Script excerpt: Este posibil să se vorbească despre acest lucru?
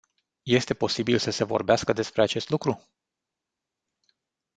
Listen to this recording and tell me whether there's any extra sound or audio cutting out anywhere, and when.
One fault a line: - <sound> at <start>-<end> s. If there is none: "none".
none